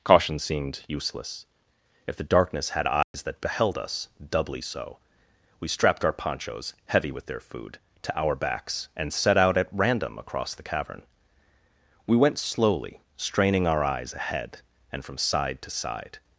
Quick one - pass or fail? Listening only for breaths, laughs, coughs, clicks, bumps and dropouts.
fail